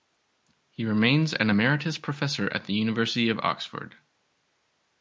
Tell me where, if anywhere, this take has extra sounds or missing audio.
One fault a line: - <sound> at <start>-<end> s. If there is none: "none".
none